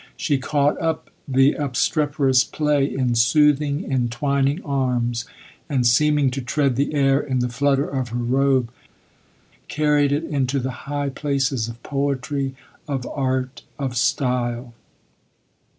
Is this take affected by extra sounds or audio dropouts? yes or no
no